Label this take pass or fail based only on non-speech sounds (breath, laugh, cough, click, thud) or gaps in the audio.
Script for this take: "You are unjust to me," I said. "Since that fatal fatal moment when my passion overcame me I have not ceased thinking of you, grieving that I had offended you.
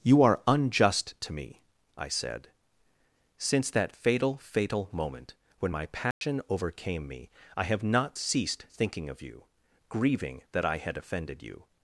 fail